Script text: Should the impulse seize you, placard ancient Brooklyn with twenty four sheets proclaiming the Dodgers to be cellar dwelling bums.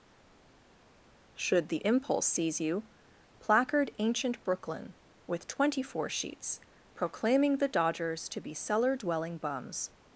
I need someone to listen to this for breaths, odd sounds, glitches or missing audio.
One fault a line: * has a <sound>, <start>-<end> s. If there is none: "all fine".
all fine